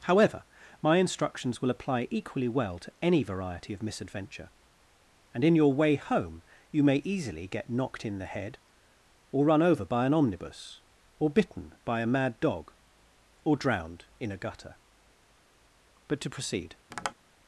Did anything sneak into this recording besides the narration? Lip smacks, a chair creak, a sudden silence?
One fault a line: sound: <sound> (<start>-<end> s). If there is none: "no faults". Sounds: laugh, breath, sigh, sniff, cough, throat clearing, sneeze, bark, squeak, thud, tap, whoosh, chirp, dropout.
sound: tap (16.9-17.1 s)